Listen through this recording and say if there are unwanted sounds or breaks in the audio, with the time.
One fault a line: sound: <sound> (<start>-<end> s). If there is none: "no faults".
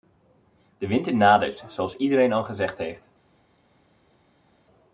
no faults